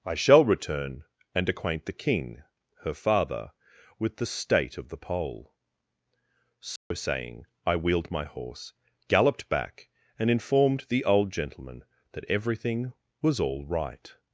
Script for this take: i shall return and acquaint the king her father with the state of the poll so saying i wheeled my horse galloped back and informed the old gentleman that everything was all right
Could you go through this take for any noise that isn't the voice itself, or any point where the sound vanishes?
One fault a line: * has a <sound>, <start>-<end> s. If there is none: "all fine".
* has a dropout, 6.8-6.9 s